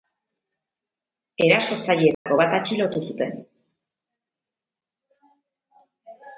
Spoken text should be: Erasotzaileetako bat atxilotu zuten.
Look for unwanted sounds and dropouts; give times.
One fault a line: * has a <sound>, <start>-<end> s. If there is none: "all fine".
* has a dropout, 2.1-2.3 s